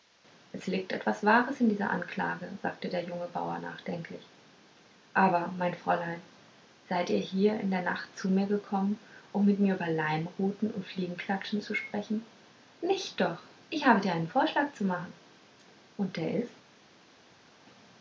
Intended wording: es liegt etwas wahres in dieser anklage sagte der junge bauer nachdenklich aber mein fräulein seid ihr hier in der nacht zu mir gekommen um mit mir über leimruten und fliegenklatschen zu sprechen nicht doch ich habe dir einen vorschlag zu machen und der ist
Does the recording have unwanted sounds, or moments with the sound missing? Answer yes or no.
no